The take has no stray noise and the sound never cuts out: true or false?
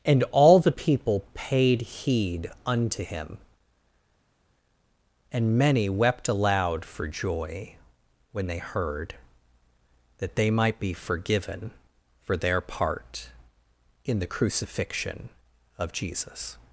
true